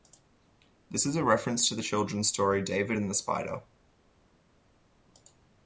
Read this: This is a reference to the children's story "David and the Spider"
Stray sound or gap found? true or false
false